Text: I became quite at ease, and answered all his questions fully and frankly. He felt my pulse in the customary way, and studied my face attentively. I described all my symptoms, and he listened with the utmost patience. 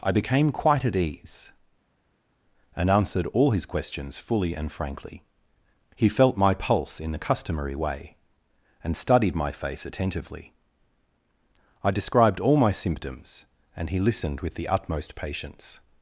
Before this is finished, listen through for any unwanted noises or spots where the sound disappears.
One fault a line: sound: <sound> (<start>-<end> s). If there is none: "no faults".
no faults